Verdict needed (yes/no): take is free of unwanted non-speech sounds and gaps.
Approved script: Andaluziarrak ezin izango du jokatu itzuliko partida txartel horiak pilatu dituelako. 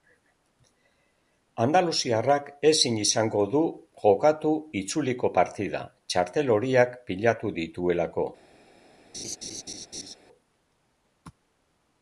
no